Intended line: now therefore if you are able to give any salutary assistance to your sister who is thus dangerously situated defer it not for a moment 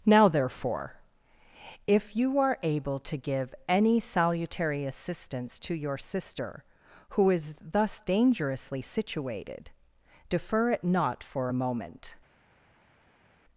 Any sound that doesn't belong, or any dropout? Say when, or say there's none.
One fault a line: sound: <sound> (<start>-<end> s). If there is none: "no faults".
no faults